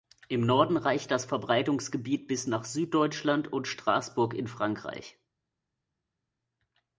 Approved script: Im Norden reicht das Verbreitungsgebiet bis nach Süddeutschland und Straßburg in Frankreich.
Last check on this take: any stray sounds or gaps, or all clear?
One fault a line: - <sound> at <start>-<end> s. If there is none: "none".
none